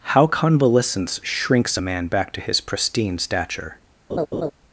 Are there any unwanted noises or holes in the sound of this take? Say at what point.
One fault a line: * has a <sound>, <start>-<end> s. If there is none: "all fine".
* has a laugh, 4.1-4.5 s